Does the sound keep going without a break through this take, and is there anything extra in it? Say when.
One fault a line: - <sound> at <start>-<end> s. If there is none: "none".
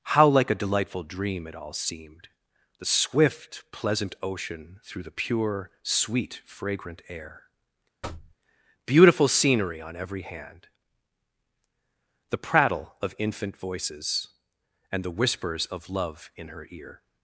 - thud at 8.0-8.4 s